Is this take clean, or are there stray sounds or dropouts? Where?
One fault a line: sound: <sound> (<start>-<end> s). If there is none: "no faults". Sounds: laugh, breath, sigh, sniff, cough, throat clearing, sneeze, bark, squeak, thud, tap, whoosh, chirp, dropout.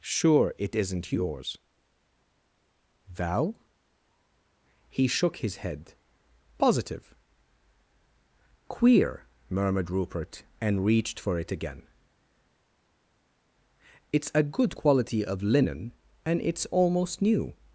no faults